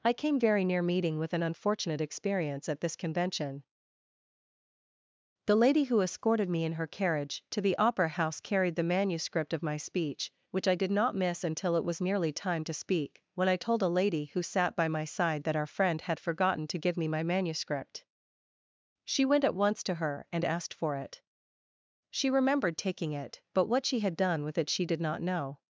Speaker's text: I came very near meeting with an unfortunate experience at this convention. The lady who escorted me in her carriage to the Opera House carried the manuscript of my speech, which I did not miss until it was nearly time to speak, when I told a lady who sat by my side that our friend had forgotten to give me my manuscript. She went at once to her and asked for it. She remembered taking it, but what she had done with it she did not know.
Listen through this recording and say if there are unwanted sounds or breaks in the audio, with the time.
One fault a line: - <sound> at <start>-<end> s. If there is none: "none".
none